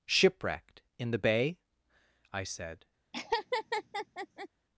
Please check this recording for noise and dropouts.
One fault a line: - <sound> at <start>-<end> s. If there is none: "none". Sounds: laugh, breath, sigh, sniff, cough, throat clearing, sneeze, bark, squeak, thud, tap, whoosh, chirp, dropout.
- laugh at 3.1-4.5 s